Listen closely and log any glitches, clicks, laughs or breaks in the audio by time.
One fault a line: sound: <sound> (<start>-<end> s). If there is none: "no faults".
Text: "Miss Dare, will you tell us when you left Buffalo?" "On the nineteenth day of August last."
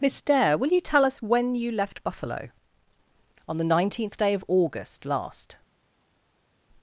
no faults